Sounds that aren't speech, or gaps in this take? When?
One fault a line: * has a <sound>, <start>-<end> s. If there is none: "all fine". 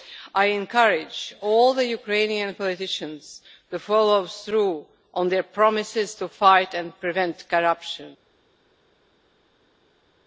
all fine